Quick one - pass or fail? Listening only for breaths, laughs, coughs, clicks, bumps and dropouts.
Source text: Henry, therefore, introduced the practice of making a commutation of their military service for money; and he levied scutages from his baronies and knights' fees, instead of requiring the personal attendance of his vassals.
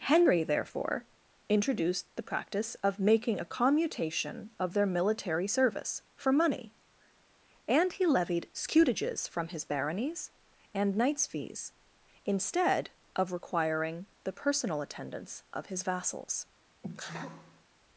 fail